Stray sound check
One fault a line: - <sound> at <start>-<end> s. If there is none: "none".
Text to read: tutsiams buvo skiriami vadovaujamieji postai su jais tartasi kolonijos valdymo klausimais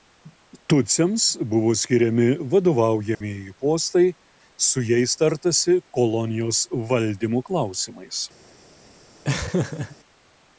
- dropout at 3.1-3.2 s
- laugh at 9.2-10.0 s